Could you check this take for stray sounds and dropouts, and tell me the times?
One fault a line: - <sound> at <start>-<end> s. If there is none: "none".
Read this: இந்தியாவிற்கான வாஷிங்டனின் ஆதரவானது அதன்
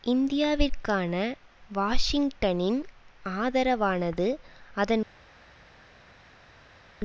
none